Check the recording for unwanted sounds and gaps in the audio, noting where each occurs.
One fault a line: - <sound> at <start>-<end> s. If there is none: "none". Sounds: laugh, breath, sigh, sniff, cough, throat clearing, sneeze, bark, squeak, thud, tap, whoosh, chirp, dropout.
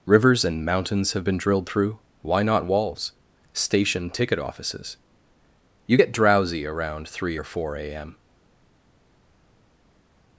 none